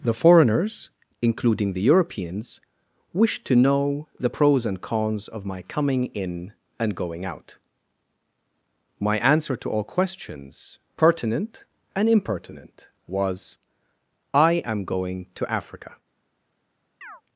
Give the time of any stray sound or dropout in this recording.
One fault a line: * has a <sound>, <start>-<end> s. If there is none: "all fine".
* has a chirp, 17.0-17.2 s